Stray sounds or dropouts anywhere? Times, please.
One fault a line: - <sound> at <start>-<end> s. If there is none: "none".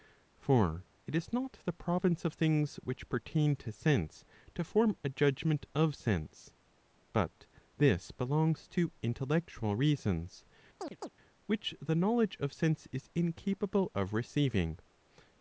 - chirp at 10.8-11.1 s